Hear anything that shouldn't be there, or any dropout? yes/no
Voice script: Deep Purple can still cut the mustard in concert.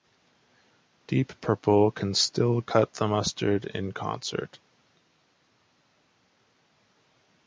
no